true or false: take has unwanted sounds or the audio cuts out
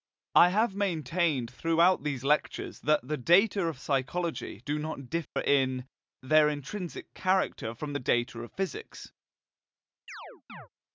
true